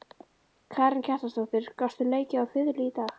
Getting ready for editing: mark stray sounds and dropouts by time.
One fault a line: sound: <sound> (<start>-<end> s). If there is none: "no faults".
no faults